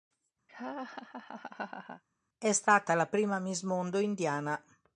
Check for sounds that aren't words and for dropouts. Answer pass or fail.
fail